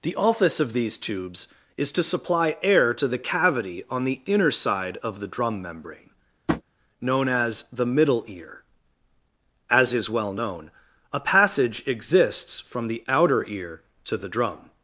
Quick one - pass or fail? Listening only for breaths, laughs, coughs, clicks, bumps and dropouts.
fail